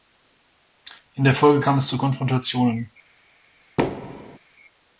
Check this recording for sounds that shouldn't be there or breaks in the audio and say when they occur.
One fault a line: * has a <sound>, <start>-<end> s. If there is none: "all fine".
* has a thud, 3.8-4.4 s